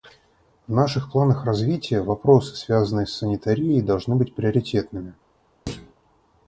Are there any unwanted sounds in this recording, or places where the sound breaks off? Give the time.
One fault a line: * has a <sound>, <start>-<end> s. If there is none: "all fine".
* has a thud, 5.7-5.9 s